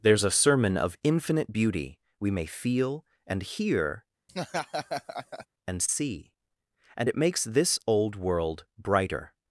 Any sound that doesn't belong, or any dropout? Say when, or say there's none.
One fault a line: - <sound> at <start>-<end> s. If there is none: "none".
- laugh at 4.3-5.5 s